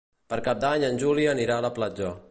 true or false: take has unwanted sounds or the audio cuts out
false